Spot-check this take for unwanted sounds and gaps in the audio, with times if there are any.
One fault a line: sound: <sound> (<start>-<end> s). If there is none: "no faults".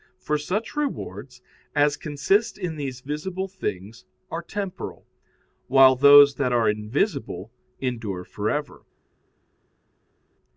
no faults